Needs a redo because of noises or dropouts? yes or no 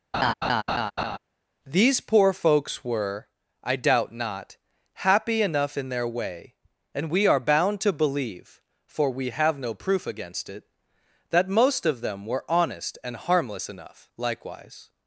yes